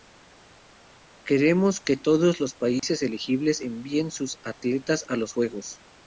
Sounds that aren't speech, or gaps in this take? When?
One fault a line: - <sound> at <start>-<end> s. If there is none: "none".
- dropout at 2.8-2.8 s